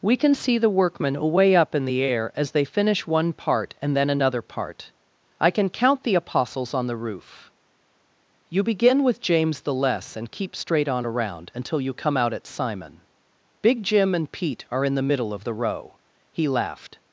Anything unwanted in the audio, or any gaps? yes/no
no